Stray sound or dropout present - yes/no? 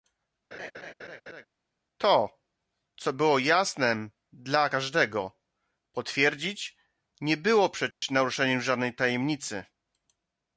yes